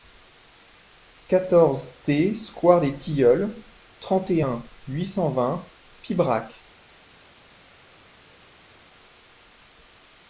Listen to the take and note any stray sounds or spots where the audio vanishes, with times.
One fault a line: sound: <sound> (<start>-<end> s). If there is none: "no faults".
no faults